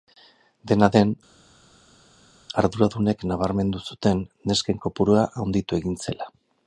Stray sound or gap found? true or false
false